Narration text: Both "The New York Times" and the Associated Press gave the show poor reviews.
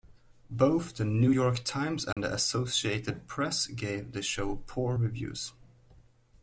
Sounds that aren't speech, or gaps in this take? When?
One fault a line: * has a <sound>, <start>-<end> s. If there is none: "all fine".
* has a dropout, 2.1-2.2 s